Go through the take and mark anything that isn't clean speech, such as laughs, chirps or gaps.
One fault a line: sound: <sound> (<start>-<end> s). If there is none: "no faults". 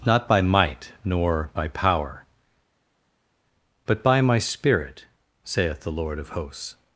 no faults